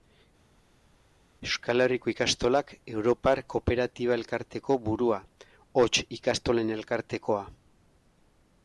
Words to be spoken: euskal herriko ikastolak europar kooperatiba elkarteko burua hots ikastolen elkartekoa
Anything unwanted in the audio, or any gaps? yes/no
no